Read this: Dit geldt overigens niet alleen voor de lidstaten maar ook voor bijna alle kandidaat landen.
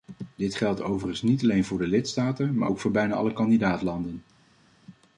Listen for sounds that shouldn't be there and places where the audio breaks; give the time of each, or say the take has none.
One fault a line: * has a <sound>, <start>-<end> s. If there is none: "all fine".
all fine